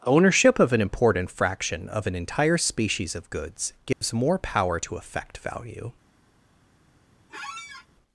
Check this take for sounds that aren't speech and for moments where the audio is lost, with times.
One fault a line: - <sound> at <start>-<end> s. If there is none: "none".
- dropout at 3.9-4.0 s
- squeak at 7.3-7.9 s